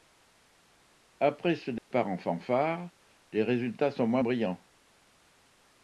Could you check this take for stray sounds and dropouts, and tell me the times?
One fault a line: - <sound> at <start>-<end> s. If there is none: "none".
- dropout at 1.8-1.9 s